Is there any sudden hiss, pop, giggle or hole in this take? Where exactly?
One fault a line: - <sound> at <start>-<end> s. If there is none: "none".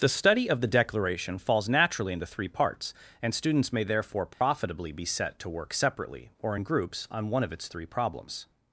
- dropout at 4.3-4.4 s